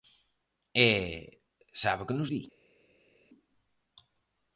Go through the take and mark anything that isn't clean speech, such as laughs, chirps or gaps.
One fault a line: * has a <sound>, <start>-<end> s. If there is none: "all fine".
all fine